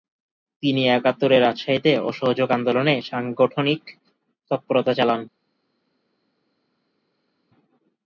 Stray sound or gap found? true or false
false